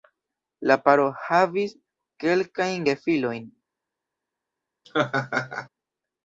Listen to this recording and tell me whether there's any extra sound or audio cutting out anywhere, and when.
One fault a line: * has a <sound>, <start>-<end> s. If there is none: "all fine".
* has a laugh, 4.8-5.7 s